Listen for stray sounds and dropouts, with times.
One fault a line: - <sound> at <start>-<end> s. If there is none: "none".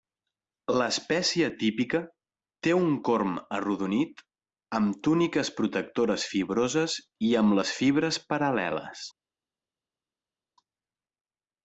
none